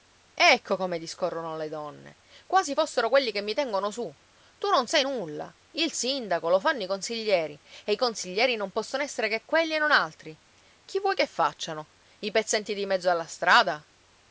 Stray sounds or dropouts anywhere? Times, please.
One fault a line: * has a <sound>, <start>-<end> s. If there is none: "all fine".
all fine